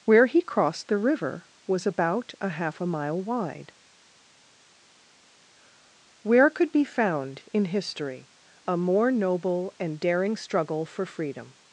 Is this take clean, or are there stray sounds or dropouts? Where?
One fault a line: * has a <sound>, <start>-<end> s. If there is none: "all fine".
all fine